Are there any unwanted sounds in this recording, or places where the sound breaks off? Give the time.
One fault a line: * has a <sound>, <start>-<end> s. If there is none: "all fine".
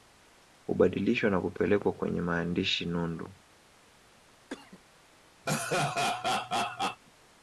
* has a cough, 4.5-4.8 s
* has a laugh, 5.5-7.0 s